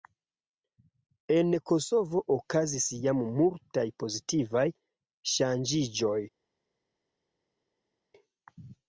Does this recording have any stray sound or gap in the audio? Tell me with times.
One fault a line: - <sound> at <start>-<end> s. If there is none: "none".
none